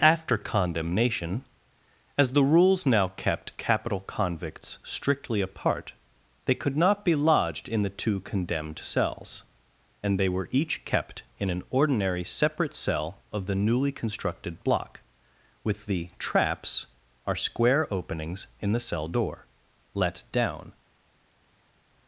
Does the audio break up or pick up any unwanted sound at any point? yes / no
no